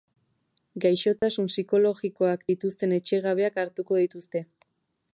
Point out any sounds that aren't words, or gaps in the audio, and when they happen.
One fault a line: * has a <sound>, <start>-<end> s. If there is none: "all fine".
* has a dropout, 1.2-1.2 s